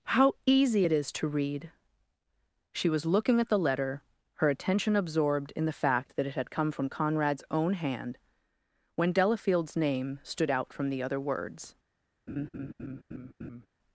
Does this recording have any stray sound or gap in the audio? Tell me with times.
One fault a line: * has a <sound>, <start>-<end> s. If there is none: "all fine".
* has a laugh, 12.3-13.7 s